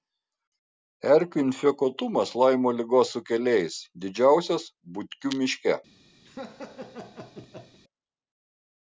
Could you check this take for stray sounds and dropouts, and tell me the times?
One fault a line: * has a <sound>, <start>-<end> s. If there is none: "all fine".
* has a laugh, 6.2-7.8 s